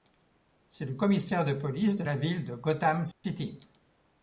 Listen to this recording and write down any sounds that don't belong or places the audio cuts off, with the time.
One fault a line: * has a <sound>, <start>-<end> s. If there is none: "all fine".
* has a dropout, 3.1-3.2 s